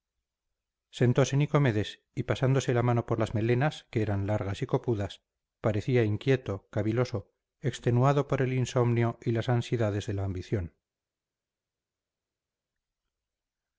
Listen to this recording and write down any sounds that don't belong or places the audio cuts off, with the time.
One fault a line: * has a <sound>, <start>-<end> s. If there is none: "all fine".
all fine